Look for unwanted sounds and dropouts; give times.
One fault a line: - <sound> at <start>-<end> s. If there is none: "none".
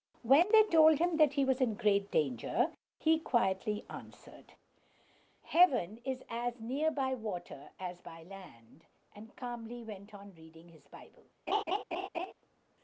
- laugh at 11.5-12.3 s